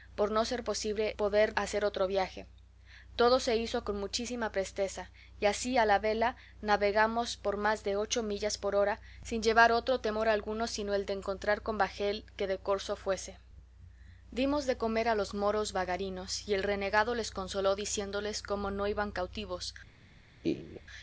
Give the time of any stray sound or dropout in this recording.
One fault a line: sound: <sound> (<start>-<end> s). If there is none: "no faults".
sound: laugh (20.4-20.8 s)